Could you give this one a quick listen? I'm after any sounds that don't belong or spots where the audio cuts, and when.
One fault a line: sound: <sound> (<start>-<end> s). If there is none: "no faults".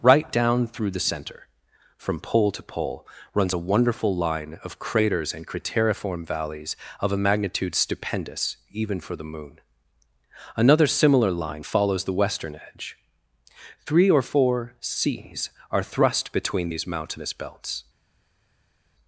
no faults